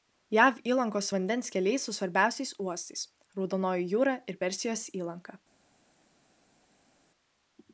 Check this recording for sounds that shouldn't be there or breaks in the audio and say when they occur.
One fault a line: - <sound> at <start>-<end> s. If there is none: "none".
none